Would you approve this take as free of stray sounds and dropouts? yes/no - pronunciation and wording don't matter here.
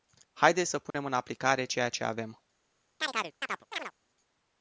no